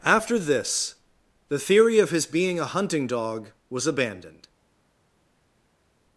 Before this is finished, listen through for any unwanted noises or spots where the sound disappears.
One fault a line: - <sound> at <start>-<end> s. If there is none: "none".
none